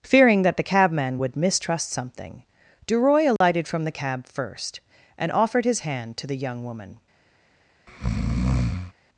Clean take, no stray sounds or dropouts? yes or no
no